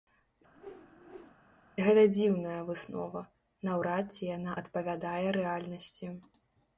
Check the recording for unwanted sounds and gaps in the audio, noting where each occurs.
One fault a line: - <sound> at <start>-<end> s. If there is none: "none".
- whoosh at 0.5-1.4 s